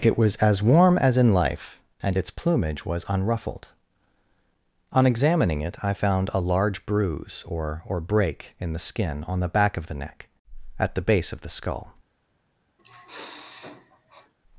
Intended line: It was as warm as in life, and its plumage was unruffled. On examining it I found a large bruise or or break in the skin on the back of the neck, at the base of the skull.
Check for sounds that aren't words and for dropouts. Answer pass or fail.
fail